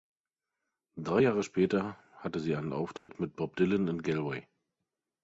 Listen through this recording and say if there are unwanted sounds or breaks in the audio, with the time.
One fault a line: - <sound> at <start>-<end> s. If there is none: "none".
- dropout at 3.0-3.1 s